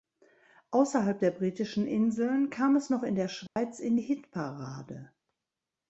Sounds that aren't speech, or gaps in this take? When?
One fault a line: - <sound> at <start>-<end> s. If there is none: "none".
- dropout at 3.5-3.6 s